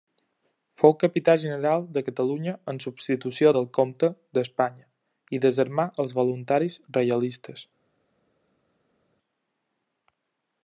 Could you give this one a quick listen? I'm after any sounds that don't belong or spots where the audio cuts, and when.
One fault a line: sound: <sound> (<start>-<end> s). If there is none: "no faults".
no faults